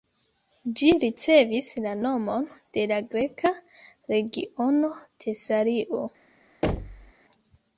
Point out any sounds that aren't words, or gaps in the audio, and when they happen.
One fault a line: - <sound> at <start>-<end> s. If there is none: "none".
- thud at 6.6-7.1 s